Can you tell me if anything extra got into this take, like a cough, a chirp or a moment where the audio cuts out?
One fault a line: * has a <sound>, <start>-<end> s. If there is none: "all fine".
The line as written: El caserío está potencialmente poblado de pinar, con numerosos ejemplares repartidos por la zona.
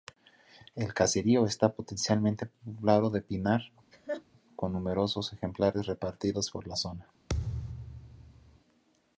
* has a laugh, 3.9-4.2 s
* has a thud, 7.3-8.6 s